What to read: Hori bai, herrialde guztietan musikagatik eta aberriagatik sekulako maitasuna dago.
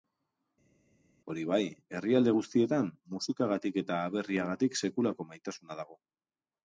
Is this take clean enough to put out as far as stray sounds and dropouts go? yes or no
yes